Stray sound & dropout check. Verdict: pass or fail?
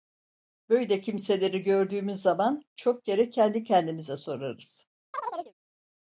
fail